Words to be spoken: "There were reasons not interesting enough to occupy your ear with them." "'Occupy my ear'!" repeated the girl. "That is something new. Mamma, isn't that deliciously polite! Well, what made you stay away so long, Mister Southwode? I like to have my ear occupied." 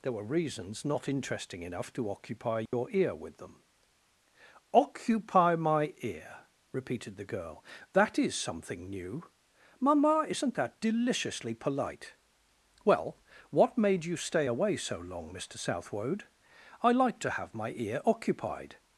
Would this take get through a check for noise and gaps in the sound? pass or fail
fail